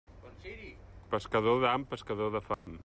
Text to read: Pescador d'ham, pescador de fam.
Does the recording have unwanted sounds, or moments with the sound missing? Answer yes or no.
yes